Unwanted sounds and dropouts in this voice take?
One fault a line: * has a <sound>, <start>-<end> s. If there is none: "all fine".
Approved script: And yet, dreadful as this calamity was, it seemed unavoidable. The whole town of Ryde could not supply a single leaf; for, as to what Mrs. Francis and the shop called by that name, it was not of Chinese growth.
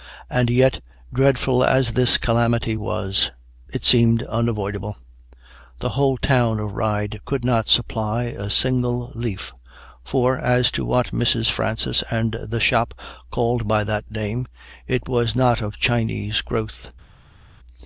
all fine